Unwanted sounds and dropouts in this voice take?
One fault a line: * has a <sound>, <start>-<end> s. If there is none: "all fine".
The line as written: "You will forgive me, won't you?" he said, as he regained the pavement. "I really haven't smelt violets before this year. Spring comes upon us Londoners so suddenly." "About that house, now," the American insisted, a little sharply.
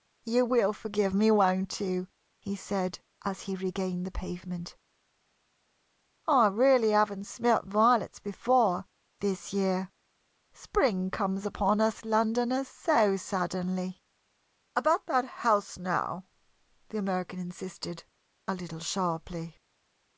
all fine